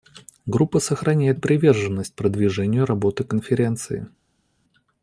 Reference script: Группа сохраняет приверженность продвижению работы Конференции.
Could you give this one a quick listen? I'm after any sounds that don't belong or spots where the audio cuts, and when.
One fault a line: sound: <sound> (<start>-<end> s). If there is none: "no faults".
no faults